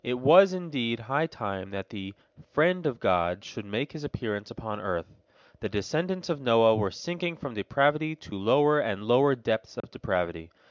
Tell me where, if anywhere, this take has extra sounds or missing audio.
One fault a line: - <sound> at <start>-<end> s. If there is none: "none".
- dropout at 9.8-9.8 s